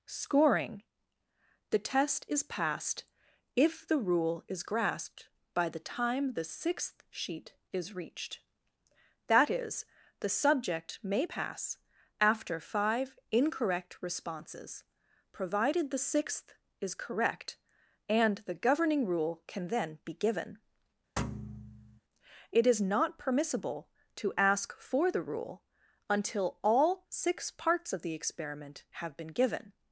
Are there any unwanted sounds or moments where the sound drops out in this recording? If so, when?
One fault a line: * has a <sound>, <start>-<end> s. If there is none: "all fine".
* has a thud, 21.2-22.0 s